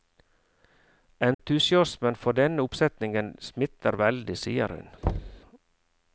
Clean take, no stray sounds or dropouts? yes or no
no